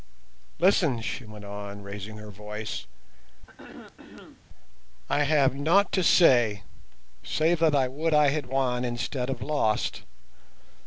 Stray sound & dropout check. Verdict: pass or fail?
fail